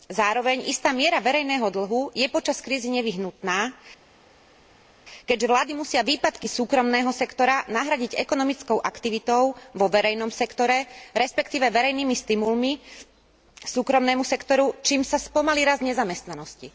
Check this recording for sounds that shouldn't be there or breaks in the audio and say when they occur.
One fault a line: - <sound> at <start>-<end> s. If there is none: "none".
none